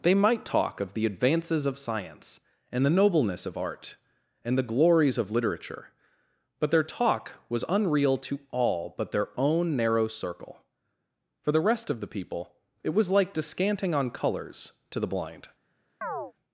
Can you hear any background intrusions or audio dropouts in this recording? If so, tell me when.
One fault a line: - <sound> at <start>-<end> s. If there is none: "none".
- chirp at 16.0-16.3 s